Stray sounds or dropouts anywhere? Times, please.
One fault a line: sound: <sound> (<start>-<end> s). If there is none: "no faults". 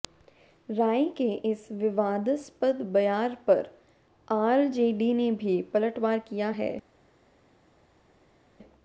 no faults